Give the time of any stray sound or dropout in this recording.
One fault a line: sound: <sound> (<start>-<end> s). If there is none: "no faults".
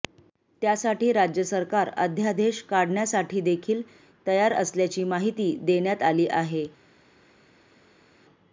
no faults